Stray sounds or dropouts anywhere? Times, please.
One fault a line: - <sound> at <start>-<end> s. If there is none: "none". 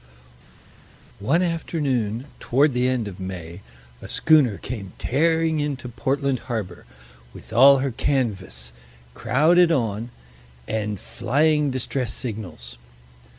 none